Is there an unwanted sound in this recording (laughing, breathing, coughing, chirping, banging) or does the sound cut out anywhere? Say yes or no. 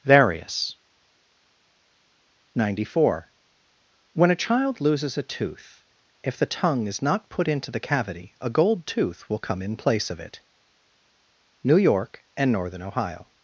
no